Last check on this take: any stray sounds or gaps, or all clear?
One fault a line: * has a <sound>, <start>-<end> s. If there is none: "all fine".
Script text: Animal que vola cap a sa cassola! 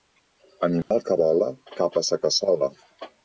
* has a dropout, 0.8-0.9 s